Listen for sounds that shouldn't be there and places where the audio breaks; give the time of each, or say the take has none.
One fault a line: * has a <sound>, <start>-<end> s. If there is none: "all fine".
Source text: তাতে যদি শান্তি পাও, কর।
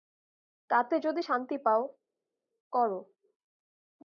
all fine